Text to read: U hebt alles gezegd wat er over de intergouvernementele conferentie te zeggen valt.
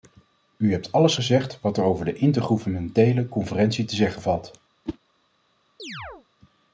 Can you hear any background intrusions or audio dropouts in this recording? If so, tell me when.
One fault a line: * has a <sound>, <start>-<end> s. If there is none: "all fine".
* has a whoosh, 4.8-5.0 s
* has a chirp, 5.8-6.3 s